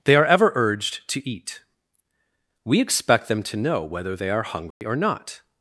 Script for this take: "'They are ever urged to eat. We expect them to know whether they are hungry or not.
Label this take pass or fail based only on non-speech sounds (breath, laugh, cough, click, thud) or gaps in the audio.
fail